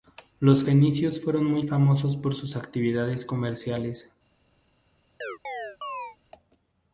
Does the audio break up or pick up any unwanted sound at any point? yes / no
yes